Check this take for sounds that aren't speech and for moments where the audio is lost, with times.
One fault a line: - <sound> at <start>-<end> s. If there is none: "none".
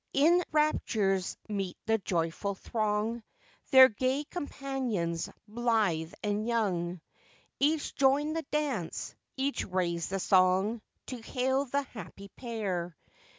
none